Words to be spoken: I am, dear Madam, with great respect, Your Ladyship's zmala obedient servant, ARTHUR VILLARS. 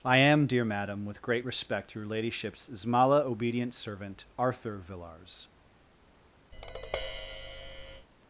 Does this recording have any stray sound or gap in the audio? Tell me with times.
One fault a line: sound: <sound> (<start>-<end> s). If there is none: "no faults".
sound: tap (6.5-8.1 s)